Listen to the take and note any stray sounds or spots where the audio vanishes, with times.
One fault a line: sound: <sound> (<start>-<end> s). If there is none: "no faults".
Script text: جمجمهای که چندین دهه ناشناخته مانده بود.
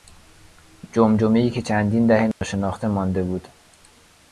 sound: dropout (2.3-2.4 s)